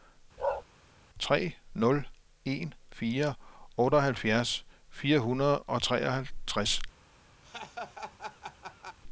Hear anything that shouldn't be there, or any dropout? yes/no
yes